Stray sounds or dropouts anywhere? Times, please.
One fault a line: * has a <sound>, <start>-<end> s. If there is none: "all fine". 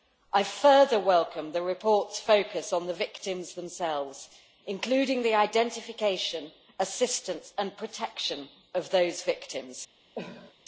* has a cough, 10.1-10.5 s